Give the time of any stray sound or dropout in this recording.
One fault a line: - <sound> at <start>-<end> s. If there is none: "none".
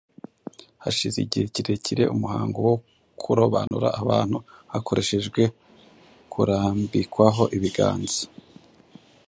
- dropout at 3.7-3.7 s